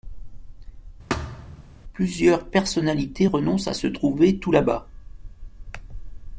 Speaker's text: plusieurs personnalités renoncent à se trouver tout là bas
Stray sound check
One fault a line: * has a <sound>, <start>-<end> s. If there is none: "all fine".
* has a thud, 1.1-1.6 s